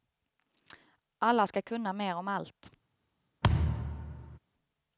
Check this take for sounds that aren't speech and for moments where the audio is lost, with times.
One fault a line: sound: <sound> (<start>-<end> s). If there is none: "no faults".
sound: thud (3.4-4.4 s)